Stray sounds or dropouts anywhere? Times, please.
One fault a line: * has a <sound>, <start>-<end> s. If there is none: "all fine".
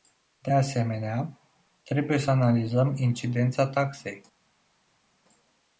all fine